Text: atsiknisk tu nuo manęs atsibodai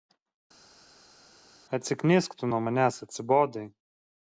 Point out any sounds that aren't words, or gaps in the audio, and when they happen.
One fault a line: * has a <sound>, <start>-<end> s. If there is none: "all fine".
all fine